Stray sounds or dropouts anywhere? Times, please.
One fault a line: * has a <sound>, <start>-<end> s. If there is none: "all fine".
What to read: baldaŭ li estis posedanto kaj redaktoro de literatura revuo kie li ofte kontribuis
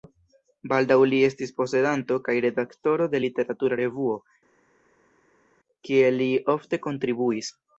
all fine